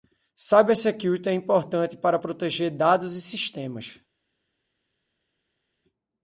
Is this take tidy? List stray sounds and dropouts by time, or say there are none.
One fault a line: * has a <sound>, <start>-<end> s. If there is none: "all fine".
all fine